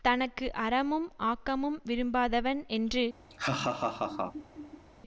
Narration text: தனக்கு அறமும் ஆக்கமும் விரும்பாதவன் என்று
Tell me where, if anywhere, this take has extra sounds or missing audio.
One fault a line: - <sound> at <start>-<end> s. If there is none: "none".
- laugh at 3.3-4.8 s